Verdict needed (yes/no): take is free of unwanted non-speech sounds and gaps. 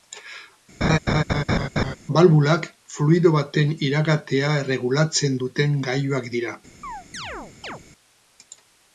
no